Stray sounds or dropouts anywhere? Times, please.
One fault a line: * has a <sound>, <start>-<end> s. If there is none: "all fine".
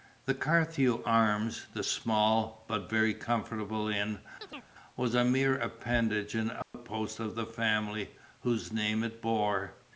* has a chirp, 4.4-4.7 s
* has a dropout, 6.6-6.7 s